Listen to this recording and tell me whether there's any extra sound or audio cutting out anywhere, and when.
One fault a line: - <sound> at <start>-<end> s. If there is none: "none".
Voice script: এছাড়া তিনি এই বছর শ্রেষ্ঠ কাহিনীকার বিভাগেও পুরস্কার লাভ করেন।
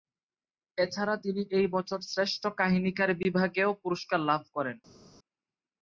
none